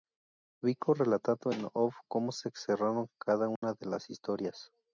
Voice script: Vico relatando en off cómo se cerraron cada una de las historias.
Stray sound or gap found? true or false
true